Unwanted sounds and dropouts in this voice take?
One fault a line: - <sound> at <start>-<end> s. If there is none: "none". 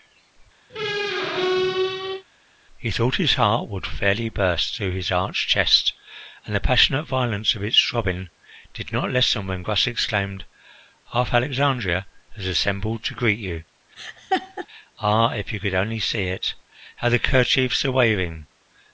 - squeak at 0.7-2.2 s
- laugh at 14.0-14.7 s